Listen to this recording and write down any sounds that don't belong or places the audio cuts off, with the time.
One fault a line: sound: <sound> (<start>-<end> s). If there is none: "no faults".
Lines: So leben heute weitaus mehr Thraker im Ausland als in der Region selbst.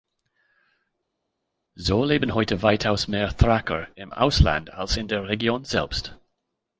no faults